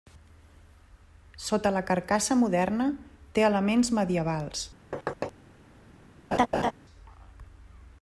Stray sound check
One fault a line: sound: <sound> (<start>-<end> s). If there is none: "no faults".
sound: thud (4.9-5.3 s)
sound: laugh (6.3-6.7 s)